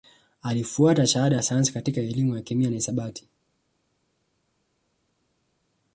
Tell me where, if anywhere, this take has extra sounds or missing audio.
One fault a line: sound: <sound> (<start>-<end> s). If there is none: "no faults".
no faults